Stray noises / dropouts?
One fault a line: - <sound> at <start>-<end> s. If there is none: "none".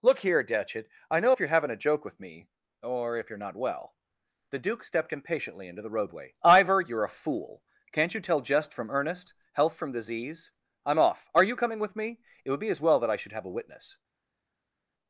none